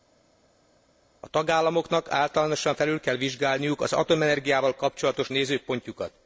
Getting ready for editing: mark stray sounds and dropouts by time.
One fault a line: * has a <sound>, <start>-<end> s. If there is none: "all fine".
all fine